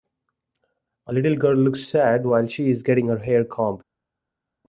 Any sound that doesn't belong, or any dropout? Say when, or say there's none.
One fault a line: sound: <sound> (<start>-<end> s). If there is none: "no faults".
no faults